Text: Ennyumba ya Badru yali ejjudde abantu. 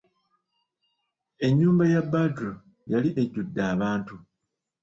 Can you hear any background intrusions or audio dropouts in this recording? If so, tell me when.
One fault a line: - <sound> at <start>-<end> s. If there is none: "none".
none